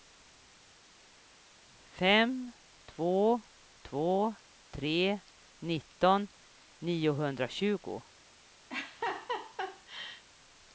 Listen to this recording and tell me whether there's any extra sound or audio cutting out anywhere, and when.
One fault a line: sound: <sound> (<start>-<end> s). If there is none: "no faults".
sound: laugh (8.7-10.2 s)